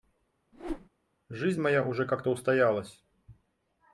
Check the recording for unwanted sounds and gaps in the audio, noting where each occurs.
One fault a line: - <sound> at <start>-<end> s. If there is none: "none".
- whoosh at 0.5-0.9 s